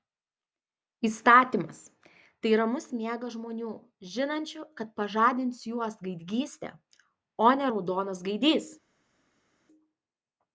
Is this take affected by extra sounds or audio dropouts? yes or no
no